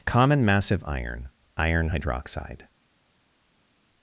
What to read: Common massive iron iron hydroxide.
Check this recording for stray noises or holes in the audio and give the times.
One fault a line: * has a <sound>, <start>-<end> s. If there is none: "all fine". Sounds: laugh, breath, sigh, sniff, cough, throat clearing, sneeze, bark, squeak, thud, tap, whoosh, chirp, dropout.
all fine